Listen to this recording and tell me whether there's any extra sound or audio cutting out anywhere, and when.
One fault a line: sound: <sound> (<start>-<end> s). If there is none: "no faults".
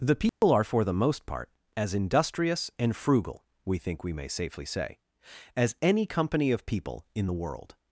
sound: dropout (0.3-0.4 s)